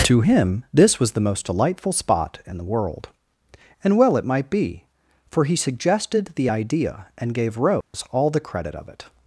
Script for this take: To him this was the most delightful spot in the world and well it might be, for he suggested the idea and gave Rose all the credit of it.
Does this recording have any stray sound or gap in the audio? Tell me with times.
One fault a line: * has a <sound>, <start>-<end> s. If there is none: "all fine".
* has a dropout, 7.8-7.9 s